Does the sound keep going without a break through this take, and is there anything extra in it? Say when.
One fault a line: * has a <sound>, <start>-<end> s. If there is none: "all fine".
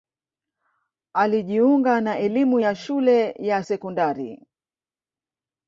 all fine